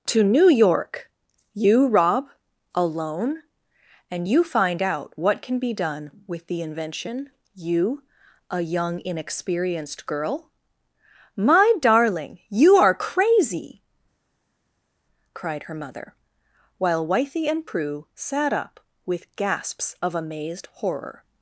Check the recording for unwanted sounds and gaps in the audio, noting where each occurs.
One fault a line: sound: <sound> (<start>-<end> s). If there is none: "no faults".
no faults